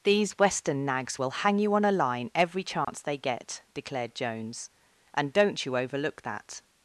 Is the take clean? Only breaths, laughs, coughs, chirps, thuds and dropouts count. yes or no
no